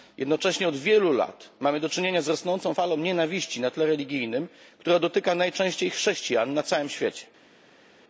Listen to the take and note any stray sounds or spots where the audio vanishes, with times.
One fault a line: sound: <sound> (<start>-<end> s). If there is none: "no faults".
no faults